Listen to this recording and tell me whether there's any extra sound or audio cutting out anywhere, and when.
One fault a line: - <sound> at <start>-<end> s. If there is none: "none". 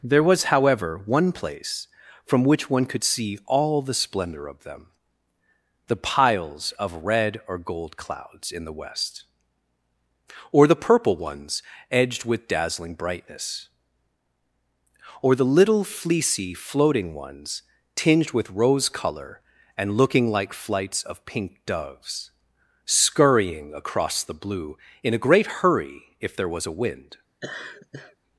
- laugh at 27.4-28.2 s